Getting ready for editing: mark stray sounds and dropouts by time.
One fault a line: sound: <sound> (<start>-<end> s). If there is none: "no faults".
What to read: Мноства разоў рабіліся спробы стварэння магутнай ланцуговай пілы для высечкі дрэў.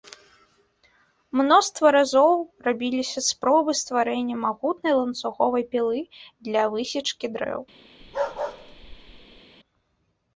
sound: bark (8.0-9.4 s)